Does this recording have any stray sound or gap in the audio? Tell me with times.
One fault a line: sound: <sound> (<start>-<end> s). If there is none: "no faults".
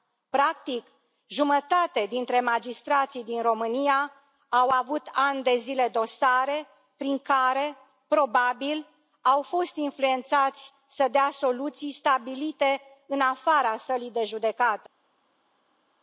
no faults